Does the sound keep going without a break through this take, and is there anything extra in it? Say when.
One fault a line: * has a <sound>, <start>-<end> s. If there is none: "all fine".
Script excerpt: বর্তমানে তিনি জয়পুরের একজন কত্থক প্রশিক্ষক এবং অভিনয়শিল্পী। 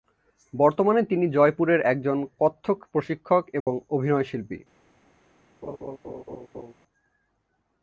* has a dropout, 3.6-3.7 s
* has a laugh, 5.6-6.7 s